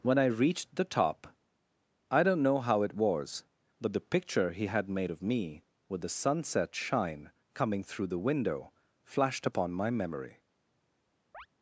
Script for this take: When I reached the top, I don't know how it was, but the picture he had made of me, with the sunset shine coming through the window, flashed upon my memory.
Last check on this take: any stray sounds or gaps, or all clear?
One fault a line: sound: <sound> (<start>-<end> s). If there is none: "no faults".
sound: chirp (11.3-11.5 s)